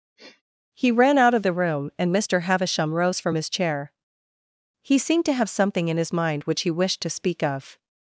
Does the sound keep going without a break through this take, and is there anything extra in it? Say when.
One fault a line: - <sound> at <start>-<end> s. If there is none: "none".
- sniff at 0.2-0.4 s